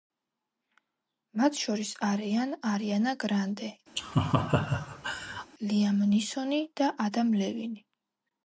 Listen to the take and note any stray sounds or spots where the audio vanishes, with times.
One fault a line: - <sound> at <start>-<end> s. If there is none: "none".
- laugh at 4.0-5.5 s